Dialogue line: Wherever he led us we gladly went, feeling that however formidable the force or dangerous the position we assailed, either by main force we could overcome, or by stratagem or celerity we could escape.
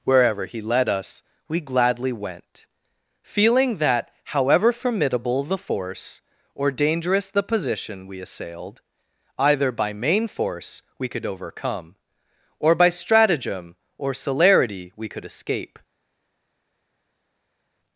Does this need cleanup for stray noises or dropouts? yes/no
no